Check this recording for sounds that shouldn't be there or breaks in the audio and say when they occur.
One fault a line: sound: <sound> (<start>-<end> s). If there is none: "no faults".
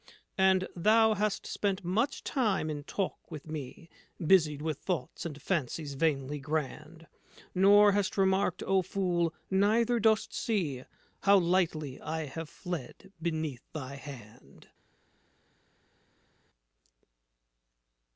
no faults